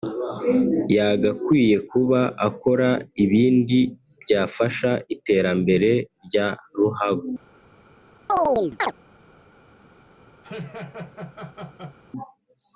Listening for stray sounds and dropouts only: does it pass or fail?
fail